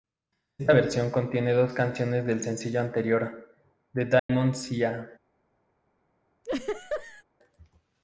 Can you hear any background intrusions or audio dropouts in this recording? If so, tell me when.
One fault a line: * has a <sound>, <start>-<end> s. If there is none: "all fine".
* has a dropout, 4.2-4.3 s
* has a laugh, 6.4-7.2 s